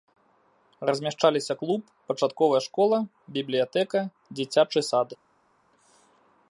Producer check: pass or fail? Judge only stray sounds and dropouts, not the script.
pass